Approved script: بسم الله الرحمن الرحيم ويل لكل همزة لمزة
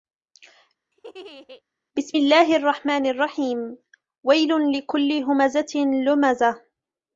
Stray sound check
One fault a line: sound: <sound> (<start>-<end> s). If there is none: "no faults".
sound: laugh (0.9-1.6 s)